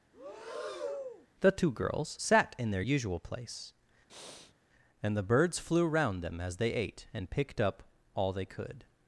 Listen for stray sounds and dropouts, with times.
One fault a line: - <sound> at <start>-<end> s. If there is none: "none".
- breath at 0.1-1.3 s
- breath at 4.1-4.5 s